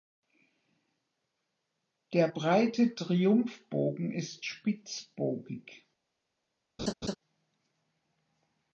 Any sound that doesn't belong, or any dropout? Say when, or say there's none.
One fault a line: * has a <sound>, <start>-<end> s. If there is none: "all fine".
* has a laugh, 6.8-7.2 s